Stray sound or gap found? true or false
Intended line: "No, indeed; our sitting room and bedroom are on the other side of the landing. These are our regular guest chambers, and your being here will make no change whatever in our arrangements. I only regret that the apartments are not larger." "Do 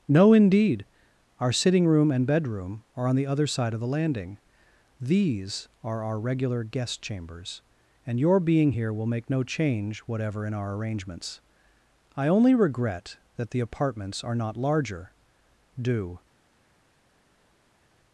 false